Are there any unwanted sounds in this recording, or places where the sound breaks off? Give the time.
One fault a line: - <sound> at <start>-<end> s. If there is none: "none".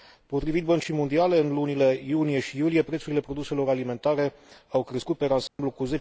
- dropout at 5.5-5.6 s